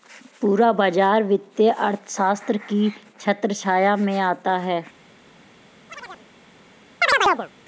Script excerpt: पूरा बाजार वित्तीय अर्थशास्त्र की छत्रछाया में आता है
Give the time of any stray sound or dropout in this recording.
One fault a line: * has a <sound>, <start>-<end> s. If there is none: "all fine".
* has a chirp, 5.9-6.3 s
* has a chirp, 7.0-7.5 s